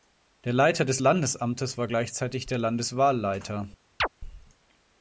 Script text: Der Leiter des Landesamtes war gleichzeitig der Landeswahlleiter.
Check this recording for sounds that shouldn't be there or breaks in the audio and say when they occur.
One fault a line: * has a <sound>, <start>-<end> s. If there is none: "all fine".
* has a chirp, 4.0-4.1 s